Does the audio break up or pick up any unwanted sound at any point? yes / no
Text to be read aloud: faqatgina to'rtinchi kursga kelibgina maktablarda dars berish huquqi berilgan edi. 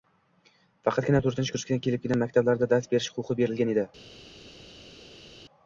no